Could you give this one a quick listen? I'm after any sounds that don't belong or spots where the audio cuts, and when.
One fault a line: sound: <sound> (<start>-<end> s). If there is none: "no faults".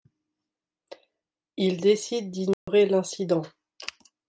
sound: dropout (2.5-2.7 s)